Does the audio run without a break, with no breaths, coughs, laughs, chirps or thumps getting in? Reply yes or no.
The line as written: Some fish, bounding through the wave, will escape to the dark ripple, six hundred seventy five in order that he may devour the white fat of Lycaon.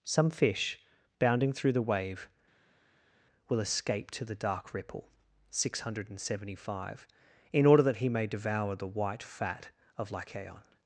yes